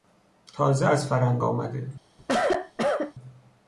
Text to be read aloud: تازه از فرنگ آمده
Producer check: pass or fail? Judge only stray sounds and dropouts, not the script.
fail